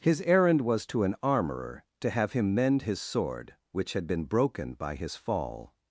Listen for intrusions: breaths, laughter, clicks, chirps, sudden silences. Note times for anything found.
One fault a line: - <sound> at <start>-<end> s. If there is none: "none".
none